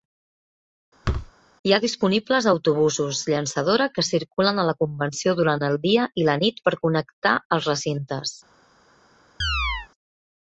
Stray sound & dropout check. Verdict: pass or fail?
fail